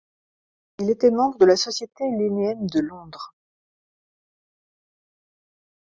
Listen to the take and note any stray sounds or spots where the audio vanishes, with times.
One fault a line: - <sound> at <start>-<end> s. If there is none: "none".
none